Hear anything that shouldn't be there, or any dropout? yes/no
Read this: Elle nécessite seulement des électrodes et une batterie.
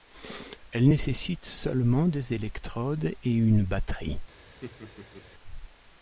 yes